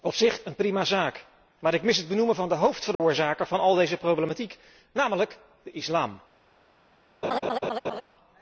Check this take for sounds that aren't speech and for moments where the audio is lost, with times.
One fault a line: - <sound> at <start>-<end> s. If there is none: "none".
- dropout at 2.9-3.0 s
- laugh at 7.2-8.0 s